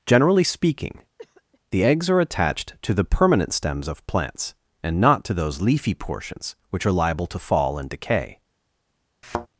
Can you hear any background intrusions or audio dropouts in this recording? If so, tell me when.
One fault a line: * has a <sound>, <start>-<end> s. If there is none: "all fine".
* has a cough, 1.2-1.6 s
* has a thud, 9.2-9.5 s